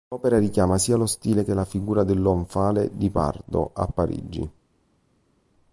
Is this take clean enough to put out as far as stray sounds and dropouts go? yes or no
yes